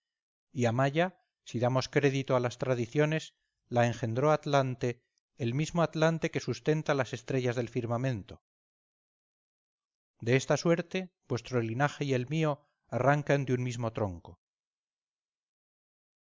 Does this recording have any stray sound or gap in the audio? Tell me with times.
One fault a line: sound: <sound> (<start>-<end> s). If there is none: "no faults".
no faults